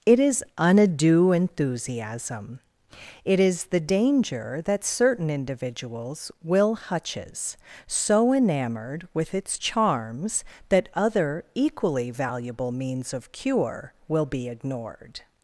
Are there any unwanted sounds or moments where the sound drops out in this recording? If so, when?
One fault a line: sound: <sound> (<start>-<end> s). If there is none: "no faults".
no faults